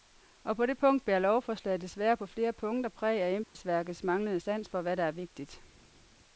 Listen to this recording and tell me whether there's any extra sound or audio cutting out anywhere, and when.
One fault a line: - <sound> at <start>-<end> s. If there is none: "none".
- dropout at 3.4-3.6 s